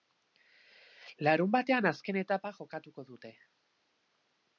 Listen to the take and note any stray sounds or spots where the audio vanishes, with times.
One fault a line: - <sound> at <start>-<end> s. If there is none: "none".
none